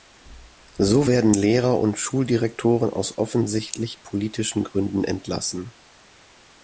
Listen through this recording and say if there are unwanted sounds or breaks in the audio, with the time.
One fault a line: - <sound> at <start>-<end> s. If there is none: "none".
none